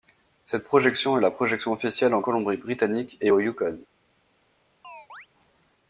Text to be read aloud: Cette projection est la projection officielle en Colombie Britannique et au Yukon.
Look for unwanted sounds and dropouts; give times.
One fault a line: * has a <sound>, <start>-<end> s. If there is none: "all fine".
* has a chirp, 4.8-5.3 s